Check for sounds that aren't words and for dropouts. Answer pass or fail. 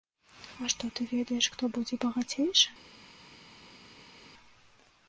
pass